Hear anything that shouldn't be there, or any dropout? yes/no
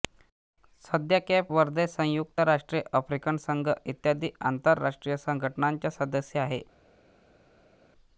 no